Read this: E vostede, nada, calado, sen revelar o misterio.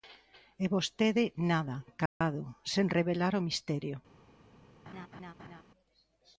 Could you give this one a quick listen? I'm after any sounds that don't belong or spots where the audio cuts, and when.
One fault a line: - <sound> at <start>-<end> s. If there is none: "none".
- dropout at 2.1-2.2 s
- laugh at 4.9-5.6 s